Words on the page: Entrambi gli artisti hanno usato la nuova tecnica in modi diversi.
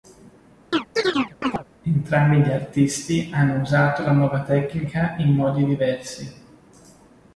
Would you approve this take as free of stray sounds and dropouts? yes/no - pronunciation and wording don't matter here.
no